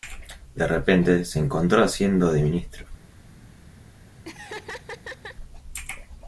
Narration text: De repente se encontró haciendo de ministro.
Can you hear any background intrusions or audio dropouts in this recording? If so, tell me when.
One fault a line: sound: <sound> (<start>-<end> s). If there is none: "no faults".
sound: laugh (4.2-5.4 s)